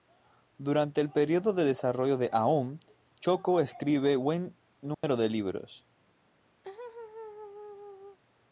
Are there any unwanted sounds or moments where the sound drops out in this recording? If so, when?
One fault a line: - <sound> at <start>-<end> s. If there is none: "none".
- dropout at 4.9-5.0 s
- laugh at 6.6-8.2 s